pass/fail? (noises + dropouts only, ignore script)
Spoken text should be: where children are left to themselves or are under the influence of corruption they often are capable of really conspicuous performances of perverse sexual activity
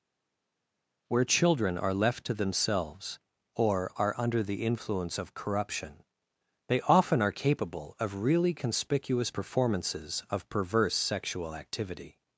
pass